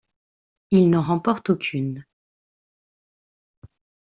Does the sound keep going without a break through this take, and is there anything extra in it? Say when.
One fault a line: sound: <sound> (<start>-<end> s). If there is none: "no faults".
no faults